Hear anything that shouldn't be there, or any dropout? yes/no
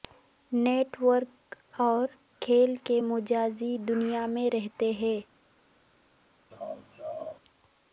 yes